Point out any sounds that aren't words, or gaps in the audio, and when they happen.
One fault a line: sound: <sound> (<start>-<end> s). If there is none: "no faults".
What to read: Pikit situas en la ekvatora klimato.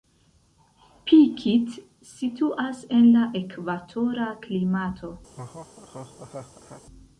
sound: laugh (5.3-6.8 s)